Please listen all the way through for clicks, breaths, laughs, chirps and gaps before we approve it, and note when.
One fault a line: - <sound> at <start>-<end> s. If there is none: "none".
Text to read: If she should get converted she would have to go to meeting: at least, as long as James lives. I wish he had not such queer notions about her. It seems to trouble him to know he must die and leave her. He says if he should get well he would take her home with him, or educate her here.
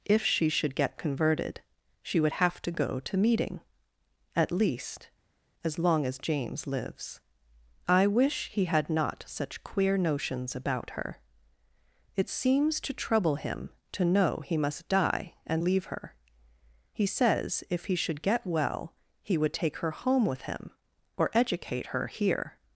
none